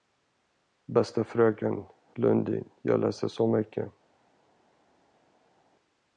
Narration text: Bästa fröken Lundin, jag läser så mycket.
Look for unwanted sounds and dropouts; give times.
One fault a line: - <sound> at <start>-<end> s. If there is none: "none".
none